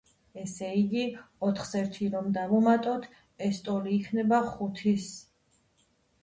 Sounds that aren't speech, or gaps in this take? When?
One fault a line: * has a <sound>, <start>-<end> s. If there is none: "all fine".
all fine